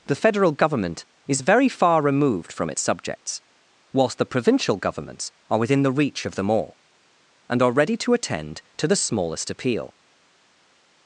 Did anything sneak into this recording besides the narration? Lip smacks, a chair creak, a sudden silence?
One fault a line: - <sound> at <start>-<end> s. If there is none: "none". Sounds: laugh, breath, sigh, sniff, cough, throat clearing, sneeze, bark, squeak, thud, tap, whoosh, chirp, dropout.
none